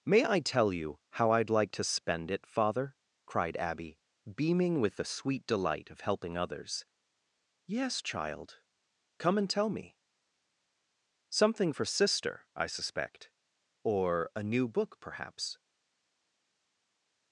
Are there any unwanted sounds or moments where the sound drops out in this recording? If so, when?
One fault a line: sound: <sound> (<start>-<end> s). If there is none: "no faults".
no faults